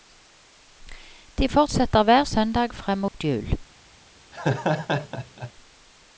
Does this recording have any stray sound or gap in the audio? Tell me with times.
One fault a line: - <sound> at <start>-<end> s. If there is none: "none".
- dropout at 3.1-3.1 s
- laugh at 4.3-5.5 s